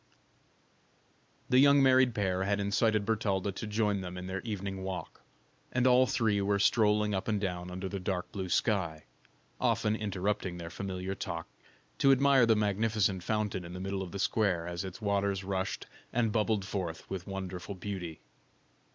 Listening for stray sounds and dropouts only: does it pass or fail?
pass